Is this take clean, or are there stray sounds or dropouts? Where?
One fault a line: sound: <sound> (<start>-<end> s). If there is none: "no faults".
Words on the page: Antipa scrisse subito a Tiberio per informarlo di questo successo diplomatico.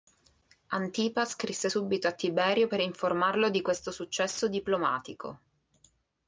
no faults